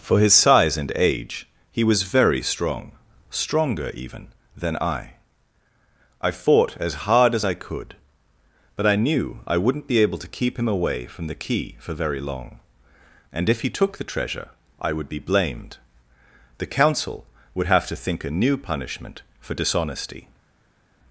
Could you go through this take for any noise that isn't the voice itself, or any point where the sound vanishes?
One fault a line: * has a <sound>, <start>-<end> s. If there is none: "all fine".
all fine